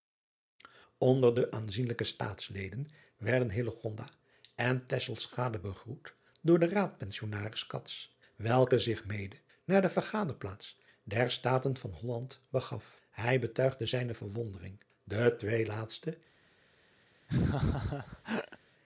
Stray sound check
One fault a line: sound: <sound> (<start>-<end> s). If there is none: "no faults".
sound: laugh (17.3-18.6 s)